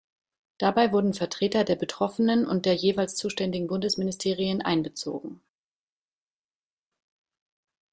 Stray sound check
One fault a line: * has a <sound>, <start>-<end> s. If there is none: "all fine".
all fine